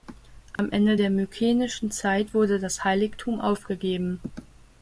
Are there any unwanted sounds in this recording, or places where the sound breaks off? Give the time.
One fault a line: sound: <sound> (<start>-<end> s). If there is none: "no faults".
sound: dropout (0.6-0.6 s)